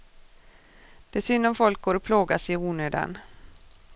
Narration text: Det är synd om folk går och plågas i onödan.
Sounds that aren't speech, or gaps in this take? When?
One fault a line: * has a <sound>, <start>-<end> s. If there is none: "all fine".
all fine